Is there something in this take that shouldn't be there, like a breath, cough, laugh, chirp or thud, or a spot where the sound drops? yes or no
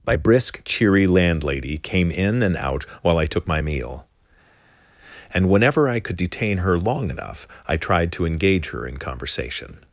no